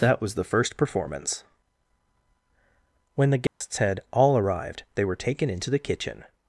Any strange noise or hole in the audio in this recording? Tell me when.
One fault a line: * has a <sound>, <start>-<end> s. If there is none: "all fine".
* has a dropout, 3.5-3.6 s